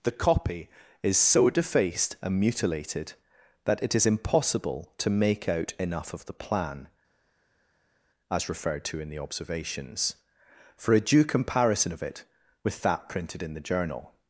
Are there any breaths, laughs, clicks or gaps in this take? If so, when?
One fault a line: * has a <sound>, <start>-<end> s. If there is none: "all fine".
all fine